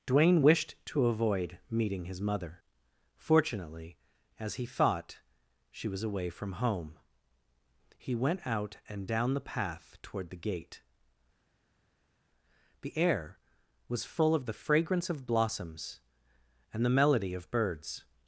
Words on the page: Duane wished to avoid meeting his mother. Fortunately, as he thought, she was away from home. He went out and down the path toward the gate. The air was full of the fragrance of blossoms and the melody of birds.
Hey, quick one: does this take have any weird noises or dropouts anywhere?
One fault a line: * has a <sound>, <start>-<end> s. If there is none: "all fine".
all fine